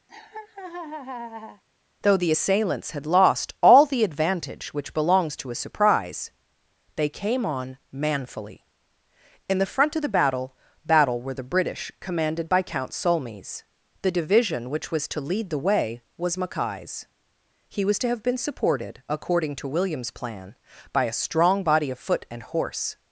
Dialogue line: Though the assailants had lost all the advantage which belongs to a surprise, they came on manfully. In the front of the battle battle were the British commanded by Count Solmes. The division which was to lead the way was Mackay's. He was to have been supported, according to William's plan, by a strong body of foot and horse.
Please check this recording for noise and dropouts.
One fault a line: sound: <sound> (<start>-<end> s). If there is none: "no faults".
sound: laugh (0.1-1.6 s)